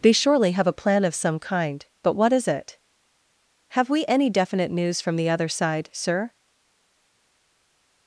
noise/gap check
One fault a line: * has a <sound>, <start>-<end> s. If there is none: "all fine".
all fine